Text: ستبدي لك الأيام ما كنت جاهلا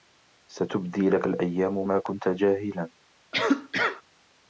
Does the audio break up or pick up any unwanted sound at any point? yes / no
yes